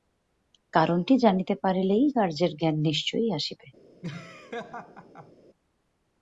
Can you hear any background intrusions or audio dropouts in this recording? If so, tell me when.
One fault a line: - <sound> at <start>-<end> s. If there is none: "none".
- laugh at 4.0-5.3 s